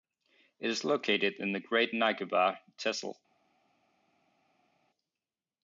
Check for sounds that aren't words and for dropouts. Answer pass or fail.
pass